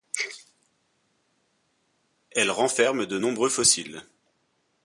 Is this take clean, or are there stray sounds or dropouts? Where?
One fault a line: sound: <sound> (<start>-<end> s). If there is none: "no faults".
no faults